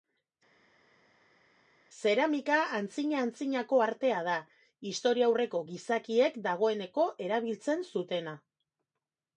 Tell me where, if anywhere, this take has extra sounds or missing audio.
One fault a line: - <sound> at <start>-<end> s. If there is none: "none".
none